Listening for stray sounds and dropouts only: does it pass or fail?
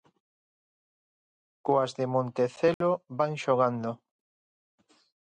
fail